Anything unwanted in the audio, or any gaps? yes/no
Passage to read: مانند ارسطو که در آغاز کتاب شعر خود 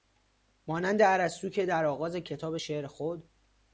no